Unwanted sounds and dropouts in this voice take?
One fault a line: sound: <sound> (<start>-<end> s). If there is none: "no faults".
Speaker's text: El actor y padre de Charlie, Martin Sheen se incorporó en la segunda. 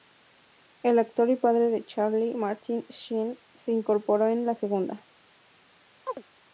sound: chirp (6.1-6.2 s)